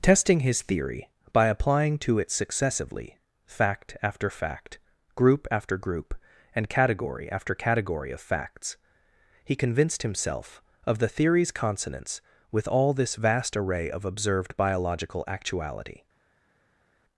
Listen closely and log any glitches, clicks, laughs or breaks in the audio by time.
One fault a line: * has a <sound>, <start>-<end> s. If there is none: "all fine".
all fine